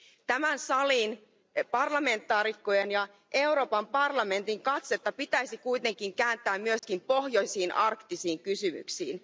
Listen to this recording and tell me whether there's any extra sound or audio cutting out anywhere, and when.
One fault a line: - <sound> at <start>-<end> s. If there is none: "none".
- dropout at 6.8-6.8 s